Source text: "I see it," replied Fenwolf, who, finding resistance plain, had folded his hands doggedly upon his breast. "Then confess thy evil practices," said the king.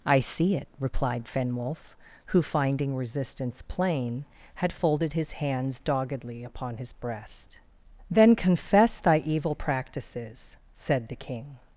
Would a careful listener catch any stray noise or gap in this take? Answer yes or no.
no